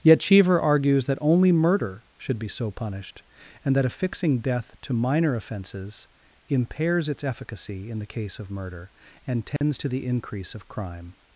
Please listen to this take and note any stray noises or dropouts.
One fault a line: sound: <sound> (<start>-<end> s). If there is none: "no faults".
sound: dropout (9.6-9.6 s)